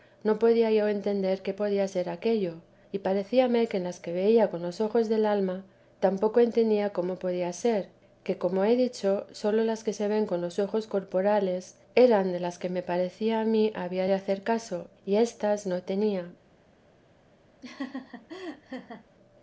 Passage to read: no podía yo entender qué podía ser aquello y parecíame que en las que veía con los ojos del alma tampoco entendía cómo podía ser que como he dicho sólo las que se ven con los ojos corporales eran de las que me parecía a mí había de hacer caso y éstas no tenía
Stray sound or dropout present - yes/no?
yes